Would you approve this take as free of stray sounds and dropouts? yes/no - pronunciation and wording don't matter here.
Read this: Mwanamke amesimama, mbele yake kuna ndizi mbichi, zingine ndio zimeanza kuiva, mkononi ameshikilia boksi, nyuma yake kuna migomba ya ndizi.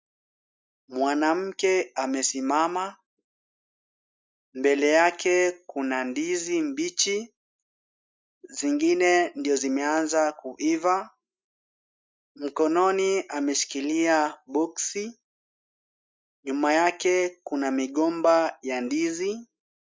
yes